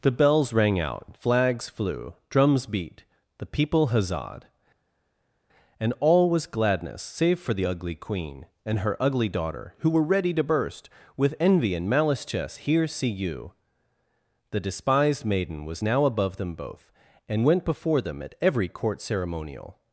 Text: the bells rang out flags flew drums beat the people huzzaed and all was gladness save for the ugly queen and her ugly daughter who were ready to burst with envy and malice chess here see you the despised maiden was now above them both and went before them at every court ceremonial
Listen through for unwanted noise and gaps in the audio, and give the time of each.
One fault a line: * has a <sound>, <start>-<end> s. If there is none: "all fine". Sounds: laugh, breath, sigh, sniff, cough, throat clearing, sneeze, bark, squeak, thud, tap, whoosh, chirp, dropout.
all fine